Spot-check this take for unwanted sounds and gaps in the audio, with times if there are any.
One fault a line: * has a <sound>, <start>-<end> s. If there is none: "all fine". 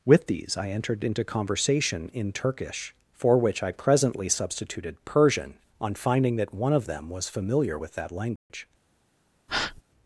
* has a dropout, 8.4-8.5 s
* has a breath, 9.5-9.8 s